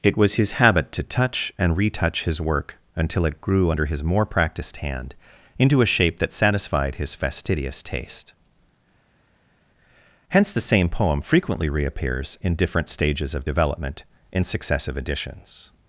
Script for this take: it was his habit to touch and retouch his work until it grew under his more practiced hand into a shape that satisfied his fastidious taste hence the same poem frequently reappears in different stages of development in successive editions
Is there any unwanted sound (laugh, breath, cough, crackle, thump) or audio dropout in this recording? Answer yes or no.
no